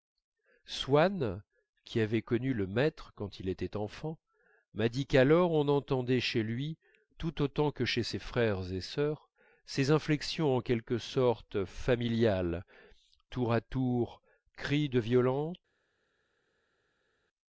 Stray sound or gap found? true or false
false